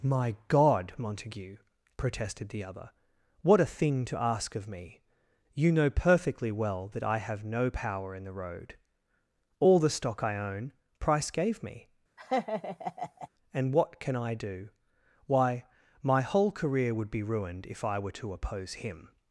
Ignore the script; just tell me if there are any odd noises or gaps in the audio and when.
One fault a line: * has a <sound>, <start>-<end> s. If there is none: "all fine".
* has a laugh, 12.2-13.3 s